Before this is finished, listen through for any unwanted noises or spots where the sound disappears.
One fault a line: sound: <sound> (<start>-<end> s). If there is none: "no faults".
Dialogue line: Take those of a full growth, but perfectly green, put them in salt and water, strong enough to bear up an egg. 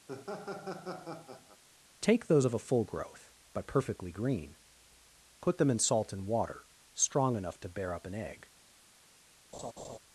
sound: laugh (0.1-1.6 s)
sound: laugh (9.5-10.0 s)